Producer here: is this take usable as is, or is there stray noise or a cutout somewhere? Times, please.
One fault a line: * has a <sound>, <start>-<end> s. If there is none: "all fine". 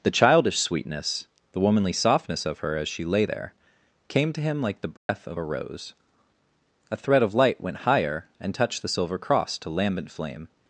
* has a dropout, 5.0-5.1 s